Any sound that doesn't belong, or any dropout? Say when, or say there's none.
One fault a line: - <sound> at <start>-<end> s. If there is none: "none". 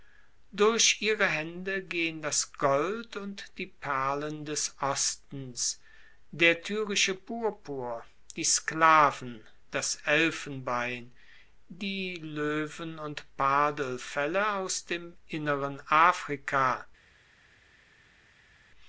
none